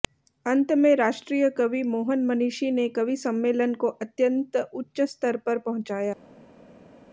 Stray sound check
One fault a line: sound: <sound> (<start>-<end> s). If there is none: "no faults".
no faults